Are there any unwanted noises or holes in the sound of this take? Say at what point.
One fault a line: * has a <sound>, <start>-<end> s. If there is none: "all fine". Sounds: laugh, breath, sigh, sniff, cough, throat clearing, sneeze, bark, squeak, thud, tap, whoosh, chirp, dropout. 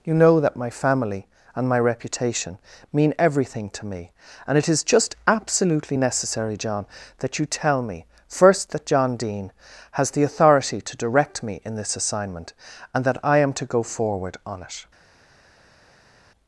all fine